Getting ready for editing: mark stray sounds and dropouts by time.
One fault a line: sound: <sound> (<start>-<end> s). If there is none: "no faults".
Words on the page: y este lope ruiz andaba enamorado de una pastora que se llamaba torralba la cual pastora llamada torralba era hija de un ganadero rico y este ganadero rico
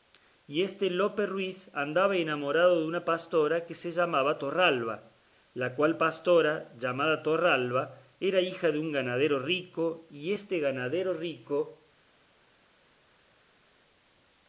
no faults